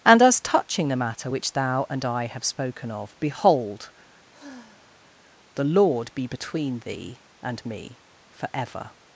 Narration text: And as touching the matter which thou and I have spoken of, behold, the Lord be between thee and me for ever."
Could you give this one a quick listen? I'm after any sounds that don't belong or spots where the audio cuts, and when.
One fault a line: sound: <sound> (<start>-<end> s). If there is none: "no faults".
sound: sigh (4.3-5.2 s)